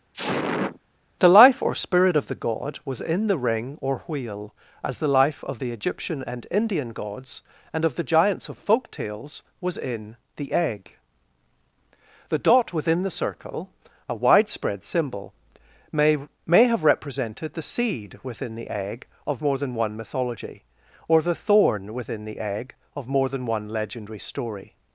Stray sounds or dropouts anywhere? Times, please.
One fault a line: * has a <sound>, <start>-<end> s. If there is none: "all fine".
* has a sneeze, 0.1-0.8 s